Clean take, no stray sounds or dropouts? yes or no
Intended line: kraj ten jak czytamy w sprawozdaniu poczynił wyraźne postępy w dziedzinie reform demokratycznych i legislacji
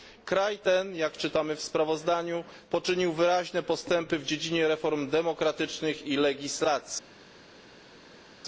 yes